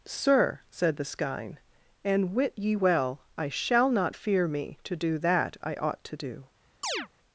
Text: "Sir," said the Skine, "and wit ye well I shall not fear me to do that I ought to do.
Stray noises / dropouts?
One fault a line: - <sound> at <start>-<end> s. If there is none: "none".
- chirp at 6.8-7.1 s